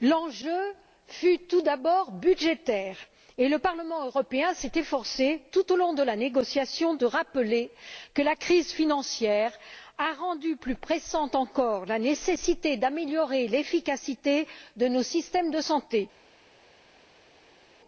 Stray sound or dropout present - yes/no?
no